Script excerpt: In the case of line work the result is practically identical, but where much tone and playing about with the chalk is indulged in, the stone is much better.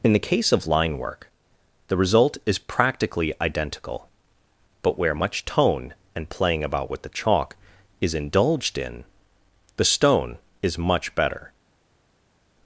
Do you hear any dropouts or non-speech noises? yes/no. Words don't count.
no